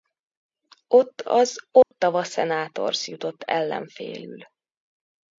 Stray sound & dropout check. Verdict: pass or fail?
fail